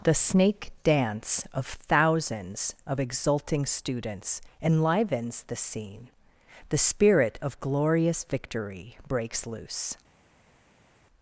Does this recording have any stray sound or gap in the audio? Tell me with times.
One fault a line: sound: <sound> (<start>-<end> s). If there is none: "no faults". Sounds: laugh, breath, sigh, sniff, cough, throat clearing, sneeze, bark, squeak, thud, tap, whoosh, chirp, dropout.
no faults